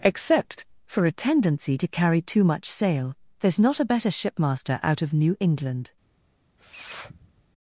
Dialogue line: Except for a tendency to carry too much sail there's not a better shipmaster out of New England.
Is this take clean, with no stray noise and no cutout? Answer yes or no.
no